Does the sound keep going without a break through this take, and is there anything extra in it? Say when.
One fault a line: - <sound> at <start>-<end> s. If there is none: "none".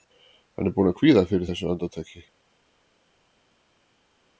none